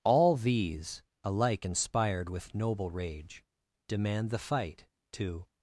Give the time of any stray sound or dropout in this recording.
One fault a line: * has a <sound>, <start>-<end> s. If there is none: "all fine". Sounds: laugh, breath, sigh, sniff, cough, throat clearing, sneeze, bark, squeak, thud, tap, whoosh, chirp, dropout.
all fine